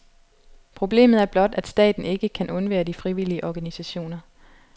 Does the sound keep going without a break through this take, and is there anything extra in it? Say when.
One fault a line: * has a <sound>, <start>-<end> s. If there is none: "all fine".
all fine